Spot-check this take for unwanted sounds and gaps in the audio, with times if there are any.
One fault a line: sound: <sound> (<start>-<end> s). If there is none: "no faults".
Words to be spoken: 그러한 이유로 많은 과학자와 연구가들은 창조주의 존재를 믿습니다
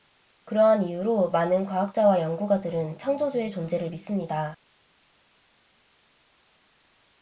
no faults